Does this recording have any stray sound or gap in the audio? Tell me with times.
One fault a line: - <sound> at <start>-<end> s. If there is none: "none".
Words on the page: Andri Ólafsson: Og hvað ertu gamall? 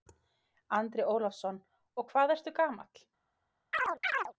- chirp at 3.7-4.3 s